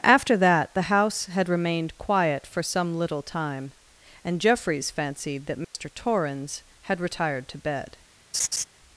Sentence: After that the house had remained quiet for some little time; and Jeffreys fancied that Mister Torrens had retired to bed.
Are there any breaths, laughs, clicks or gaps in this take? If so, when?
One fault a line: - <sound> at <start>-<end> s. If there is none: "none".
- dropout at 5.6-5.7 s
- laugh at 8.3-8.6 s